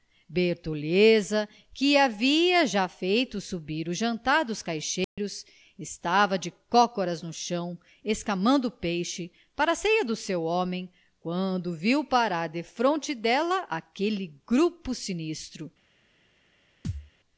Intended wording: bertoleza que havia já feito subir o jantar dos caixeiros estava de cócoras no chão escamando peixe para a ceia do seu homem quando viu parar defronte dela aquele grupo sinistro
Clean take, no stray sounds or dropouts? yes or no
no